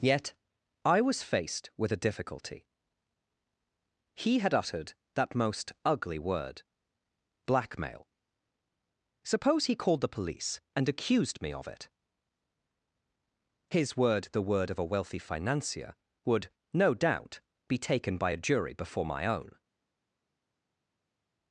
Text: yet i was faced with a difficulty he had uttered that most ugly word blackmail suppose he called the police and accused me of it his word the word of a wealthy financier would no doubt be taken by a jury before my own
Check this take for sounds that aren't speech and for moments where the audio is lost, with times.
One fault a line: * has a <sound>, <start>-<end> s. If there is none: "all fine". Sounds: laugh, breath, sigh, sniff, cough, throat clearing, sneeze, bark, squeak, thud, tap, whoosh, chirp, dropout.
all fine